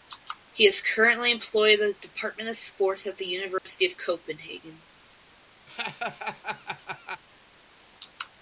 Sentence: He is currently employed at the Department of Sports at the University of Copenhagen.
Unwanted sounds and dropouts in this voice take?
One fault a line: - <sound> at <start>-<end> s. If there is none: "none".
- dropout at 3.6-3.7 s
- laugh at 5.7-7.2 s